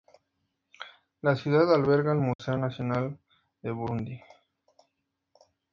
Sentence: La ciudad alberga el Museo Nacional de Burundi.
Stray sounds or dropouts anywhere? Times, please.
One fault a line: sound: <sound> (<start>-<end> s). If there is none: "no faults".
sound: dropout (2.3-2.4 s)